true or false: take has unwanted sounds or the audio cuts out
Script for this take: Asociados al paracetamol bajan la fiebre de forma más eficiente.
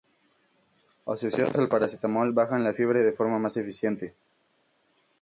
false